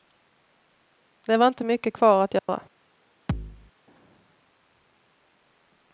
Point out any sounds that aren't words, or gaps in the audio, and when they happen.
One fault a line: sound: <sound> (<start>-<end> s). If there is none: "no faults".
sound: dropout (2.4-2.5 s)
sound: thud (3.3-3.7 s)